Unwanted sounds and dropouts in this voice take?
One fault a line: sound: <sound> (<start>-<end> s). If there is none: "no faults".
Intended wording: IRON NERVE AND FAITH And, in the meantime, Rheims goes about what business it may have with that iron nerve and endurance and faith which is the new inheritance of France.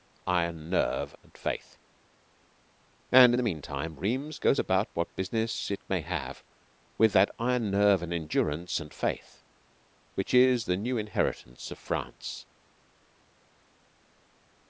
no faults